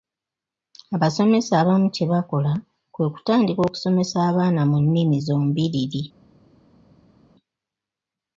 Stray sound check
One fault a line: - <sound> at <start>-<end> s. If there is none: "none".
none